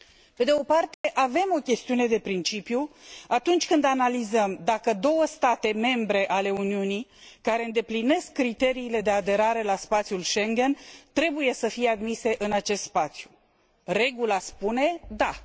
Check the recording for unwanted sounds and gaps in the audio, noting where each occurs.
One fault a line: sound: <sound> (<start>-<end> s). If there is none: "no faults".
sound: dropout (0.9-1.0 s)